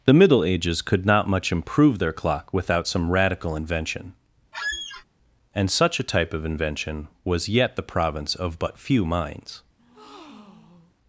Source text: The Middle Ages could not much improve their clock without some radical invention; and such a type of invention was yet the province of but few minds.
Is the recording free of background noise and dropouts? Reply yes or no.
no